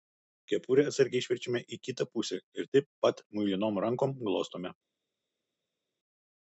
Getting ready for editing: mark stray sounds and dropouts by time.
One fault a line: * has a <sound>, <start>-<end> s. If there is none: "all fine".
all fine